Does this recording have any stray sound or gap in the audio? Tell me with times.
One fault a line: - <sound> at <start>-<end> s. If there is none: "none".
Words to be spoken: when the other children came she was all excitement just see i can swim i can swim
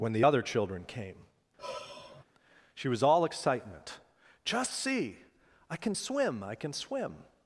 - sigh at 1.6-2.2 s